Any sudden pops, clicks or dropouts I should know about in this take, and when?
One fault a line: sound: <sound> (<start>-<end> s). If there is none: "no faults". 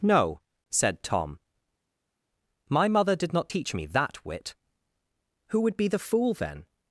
no faults